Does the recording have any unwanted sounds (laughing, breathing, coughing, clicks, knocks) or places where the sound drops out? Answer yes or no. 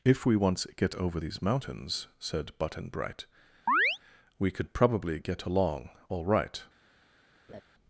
yes